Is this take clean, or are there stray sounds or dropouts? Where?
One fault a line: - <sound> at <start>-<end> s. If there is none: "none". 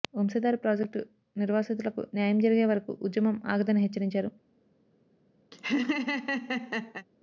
- laugh at 5.5-7.1 s